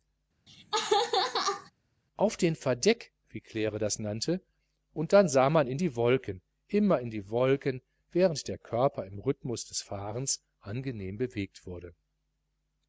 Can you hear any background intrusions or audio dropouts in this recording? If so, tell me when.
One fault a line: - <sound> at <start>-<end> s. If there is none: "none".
- laugh at 0.5-1.7 s